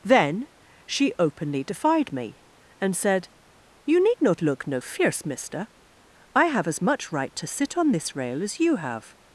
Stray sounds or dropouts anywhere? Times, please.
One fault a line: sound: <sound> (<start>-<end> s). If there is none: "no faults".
no faults